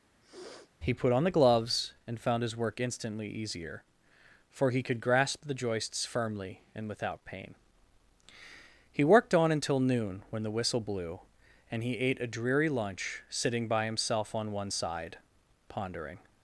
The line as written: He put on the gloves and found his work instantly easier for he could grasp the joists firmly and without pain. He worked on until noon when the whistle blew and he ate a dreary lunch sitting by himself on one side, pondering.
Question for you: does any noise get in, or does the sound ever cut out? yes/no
yes